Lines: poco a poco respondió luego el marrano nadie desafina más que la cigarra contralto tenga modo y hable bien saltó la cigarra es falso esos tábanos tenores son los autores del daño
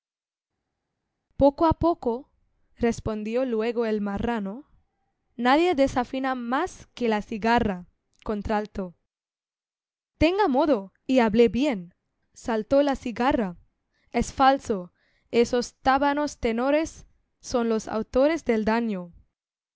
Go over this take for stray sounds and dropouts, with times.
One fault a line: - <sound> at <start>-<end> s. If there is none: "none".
none